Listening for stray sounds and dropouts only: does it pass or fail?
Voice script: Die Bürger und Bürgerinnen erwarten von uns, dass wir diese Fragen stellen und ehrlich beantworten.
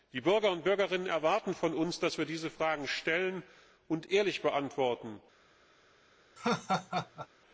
fail